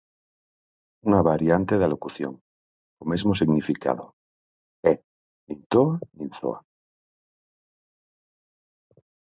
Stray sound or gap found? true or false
false